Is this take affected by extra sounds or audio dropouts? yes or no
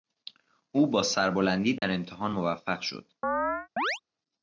yes